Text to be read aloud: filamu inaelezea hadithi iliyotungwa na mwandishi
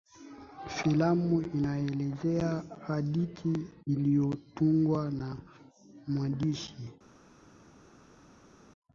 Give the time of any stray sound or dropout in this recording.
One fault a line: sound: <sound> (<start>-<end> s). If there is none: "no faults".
no faults